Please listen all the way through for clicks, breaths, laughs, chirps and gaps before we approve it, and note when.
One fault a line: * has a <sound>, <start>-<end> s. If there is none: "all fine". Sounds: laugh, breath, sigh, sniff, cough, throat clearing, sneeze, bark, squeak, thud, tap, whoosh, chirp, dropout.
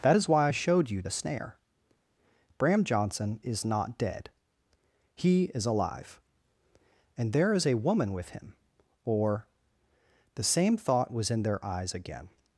all fine